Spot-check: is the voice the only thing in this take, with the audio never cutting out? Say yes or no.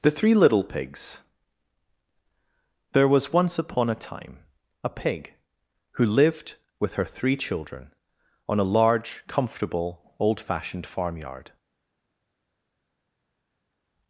yes